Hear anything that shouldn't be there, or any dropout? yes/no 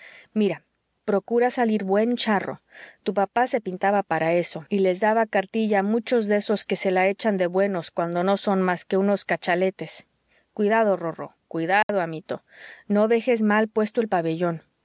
yes